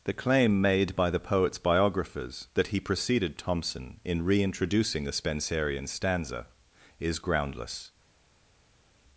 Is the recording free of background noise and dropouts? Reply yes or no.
yes